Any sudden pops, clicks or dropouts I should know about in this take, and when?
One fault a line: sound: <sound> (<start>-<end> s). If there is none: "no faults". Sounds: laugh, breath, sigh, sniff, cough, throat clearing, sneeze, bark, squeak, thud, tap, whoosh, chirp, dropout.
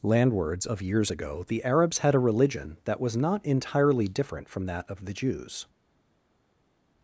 no faults